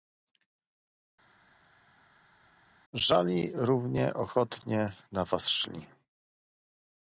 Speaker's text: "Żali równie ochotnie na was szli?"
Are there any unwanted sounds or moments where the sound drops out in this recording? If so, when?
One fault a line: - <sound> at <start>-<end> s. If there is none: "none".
none